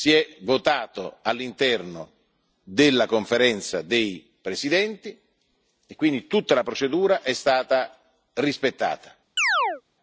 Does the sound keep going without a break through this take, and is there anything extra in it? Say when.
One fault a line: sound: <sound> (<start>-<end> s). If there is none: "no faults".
sound: chirp (9.4-9.8 s)